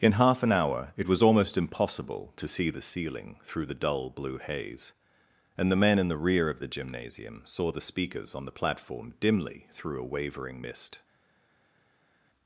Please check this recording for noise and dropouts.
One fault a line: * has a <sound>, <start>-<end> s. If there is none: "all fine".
all fine